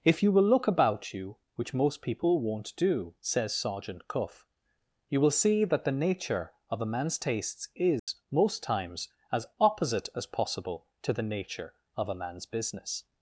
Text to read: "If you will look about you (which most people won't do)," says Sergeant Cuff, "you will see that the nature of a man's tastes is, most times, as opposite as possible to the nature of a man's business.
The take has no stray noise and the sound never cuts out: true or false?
false